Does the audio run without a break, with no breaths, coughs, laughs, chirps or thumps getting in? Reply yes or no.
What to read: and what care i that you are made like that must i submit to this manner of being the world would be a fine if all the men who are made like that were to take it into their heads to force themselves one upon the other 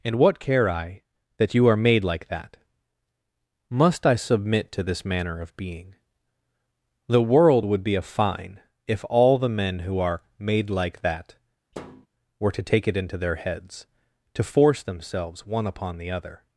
no